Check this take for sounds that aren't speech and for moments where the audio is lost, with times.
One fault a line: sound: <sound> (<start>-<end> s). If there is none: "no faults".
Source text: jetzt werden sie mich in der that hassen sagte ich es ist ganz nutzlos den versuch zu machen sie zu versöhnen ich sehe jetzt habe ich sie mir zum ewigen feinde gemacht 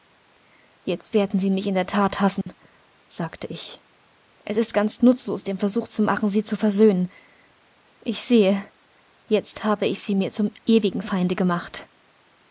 sound: dropout (2.4-2.5 s)